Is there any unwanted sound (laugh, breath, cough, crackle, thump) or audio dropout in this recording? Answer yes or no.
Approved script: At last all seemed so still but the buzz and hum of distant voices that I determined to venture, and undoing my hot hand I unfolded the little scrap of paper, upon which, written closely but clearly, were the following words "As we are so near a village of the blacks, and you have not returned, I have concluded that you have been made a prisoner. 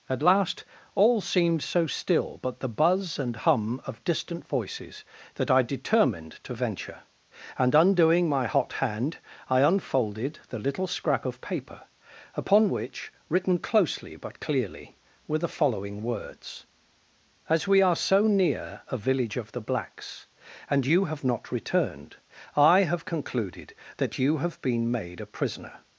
no